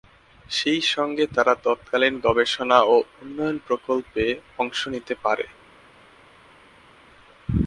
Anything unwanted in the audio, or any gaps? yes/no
no